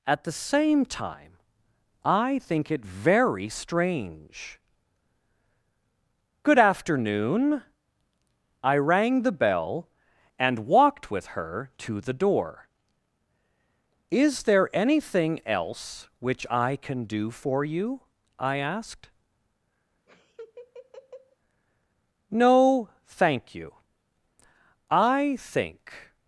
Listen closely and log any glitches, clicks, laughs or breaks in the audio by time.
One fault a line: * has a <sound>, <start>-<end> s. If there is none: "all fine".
* has a laugh, 20.1-21.4 s